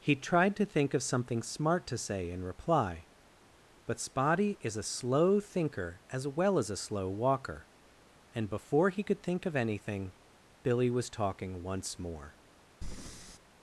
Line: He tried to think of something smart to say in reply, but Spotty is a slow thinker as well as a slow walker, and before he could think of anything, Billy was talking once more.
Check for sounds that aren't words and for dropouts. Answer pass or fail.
fail